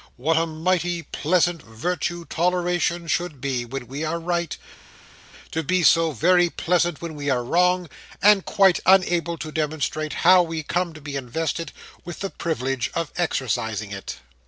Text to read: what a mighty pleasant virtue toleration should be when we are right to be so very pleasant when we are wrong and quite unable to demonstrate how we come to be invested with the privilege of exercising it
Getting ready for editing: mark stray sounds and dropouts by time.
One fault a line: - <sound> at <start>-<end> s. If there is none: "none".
none